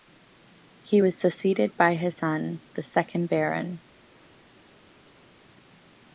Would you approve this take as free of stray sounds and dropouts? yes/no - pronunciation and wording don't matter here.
yes